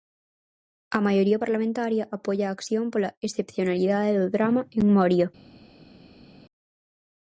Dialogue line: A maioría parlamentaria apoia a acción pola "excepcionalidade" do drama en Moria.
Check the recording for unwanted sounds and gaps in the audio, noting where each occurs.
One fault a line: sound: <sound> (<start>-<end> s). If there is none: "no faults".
no faults